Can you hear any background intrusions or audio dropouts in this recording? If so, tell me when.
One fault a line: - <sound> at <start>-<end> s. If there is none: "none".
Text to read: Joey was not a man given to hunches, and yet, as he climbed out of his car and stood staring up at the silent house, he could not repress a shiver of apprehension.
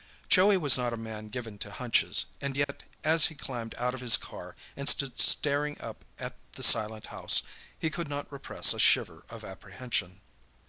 - dropout at 2.6-2.7 s